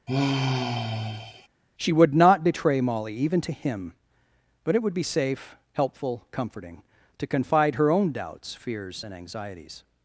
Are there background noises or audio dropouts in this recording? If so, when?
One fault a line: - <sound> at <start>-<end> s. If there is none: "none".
- sigh at 0.1-1.5 s